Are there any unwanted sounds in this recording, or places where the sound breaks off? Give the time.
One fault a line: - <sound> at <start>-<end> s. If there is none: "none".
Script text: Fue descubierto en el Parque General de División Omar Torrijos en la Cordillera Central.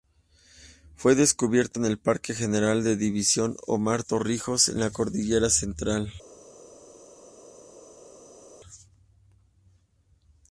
none